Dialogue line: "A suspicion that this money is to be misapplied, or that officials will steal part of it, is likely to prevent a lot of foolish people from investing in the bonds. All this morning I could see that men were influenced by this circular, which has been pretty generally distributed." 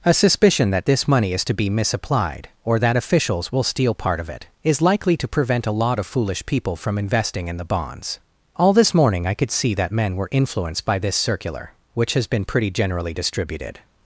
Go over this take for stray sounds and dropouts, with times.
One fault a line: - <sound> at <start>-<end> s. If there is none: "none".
none